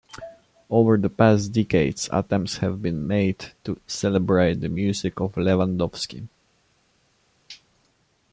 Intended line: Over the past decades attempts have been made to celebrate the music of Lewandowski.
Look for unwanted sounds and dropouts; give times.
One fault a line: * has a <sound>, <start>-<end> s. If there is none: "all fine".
all fine